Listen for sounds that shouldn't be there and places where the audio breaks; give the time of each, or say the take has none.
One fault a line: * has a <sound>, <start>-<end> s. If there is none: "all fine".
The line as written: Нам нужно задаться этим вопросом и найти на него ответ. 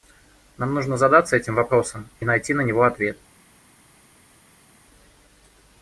all fine